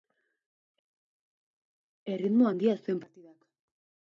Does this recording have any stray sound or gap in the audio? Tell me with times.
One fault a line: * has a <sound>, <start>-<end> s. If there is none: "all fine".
all fine